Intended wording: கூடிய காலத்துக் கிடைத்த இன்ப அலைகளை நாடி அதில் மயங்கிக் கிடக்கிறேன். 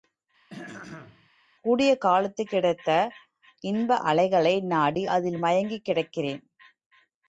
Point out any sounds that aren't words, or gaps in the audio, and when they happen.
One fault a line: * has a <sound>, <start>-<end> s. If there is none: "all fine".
* has a throat clearing, 0.5-1.3 s